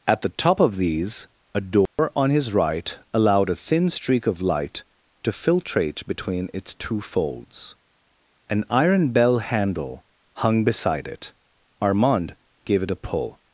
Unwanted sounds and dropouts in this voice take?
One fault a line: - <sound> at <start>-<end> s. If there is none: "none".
- dropout at 1.9-2.0 s